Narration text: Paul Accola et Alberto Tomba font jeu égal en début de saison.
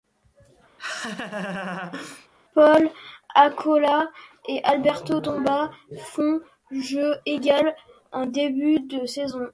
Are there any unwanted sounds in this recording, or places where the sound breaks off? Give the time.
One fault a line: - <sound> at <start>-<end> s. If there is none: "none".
- laugh at 0.8-2.3 s